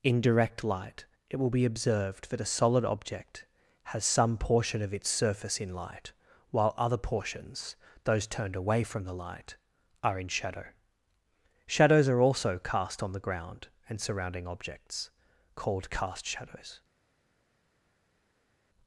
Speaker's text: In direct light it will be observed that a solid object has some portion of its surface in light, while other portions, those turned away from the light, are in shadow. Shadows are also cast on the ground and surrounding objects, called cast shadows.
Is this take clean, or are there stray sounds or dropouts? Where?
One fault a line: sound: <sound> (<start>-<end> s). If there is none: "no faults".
no faults